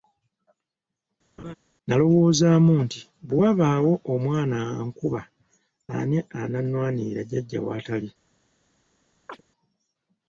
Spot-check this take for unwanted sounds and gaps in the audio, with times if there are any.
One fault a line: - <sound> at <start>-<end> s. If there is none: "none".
- laugh at 1.4-1.5 s
- chirp at 9.3-9.4 s